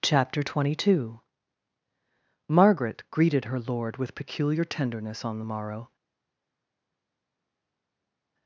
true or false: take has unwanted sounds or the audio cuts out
false